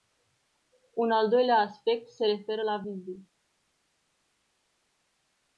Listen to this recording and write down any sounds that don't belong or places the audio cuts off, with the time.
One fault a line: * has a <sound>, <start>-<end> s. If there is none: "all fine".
all fine